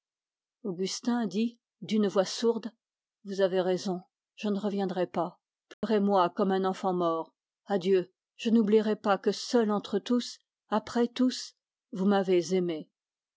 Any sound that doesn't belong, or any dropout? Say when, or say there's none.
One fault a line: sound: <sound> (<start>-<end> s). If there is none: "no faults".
sound: dropout (5.7-5.8 s)